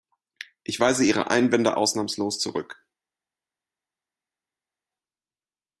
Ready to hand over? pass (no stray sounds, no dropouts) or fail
pass